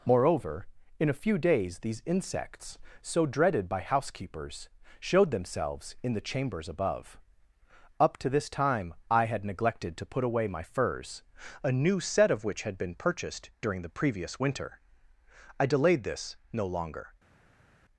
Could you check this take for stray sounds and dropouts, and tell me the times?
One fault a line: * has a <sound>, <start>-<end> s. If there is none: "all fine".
all fine